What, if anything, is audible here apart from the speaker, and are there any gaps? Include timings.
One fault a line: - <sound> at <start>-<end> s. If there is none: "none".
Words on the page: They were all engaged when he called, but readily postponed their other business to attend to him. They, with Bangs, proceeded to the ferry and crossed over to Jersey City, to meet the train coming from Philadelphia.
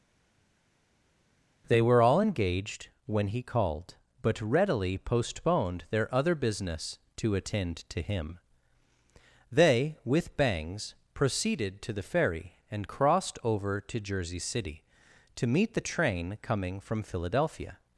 none